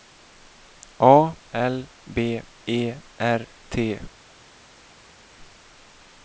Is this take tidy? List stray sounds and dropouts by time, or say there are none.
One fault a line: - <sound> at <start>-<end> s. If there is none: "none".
none